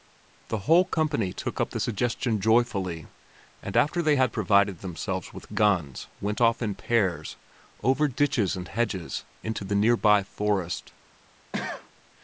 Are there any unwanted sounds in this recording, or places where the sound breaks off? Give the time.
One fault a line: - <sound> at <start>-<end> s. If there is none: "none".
- cough at 11.5-11.9 s